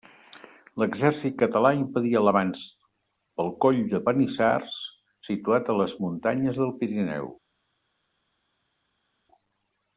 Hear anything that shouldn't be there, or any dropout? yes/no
no